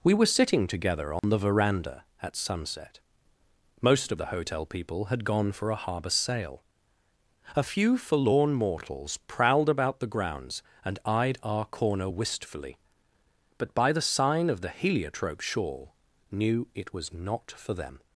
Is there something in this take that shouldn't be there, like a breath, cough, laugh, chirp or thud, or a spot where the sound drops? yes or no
yes